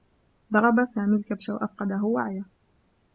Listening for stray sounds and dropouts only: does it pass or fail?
pass